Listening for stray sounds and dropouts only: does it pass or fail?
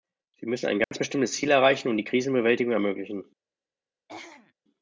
fail